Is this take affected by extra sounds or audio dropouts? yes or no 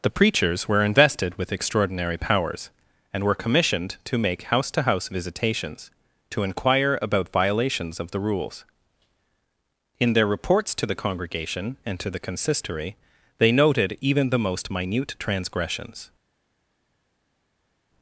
no